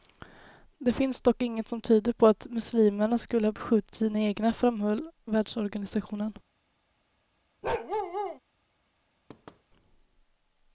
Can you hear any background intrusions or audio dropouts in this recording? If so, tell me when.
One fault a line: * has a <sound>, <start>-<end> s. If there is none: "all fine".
* has a bark, 7.6-8.4 s
* has a thud, 9.3-9.6 s